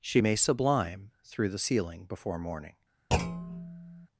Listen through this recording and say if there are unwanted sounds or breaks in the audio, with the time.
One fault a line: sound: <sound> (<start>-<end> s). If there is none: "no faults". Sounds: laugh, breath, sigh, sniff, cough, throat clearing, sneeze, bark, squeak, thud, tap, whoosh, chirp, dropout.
sound: thud (3.1-4.1 s)